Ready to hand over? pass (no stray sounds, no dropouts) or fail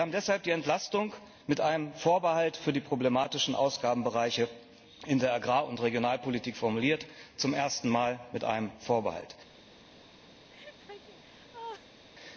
fail